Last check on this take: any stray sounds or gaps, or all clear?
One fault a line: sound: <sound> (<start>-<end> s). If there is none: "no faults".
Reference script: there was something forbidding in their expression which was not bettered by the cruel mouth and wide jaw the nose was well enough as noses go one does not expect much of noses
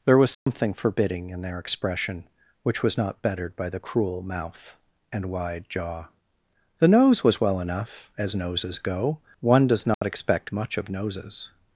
sound: dropout (0.3-0.5 s)
sound: dropout (9.9-10.0 s)